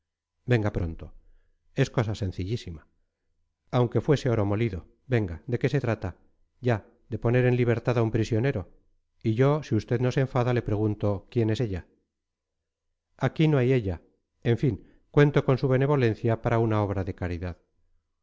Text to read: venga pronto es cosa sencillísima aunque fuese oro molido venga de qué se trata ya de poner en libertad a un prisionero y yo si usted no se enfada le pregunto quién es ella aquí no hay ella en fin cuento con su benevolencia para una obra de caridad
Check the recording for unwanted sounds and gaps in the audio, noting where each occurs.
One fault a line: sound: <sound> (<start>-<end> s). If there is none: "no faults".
no faults